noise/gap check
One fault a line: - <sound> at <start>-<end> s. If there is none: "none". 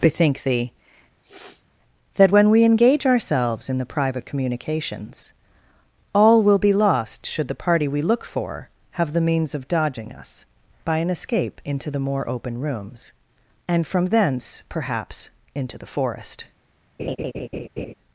- sniff at 1.2-1.7 s
- laugh at 17.0-17.9 s